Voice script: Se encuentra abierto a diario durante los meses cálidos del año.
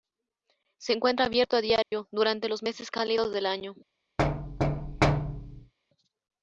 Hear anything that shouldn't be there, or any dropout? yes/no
yes